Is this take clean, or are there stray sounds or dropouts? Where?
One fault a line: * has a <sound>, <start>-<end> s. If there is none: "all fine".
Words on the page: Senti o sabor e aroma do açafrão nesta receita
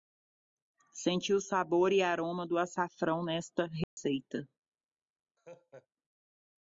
* has a dropout, 3.8-4.0 s
* has a laugh, 5.4-5.9 s